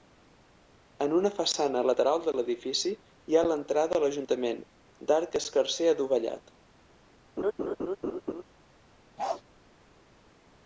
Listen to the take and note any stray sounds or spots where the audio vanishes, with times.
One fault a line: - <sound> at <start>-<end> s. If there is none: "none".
- laugh at 7.4-8.4 s
- bark at 9.2-9.4 s